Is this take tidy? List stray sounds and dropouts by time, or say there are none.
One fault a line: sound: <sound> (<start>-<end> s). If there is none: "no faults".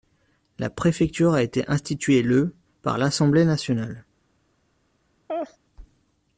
sound: laugh (5.3-5.6 s)